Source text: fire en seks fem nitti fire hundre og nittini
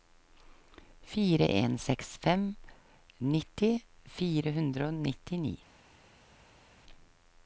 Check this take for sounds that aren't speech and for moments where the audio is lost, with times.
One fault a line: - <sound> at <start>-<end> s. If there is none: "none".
none